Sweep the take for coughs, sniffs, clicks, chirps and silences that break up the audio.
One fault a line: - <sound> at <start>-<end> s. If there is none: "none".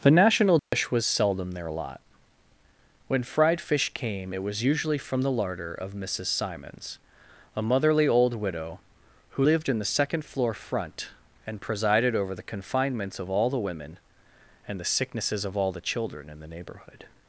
- dropout at 0.6-0.7 s